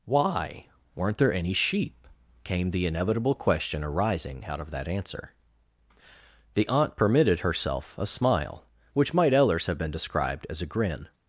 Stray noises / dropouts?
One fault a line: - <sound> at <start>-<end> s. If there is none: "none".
none